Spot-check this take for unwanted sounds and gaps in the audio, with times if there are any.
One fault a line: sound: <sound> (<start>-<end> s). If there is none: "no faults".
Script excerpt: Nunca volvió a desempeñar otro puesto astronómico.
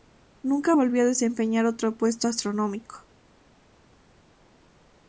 no faults